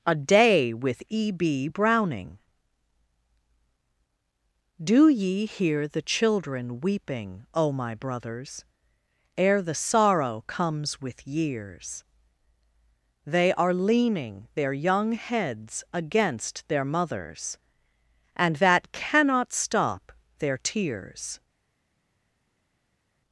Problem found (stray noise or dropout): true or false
false